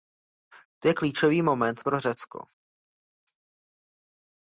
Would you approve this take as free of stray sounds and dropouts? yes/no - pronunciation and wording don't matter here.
yes